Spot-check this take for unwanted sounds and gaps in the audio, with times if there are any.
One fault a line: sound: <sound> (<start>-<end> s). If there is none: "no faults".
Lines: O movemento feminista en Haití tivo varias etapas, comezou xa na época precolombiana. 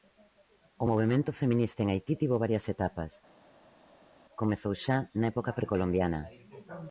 no faults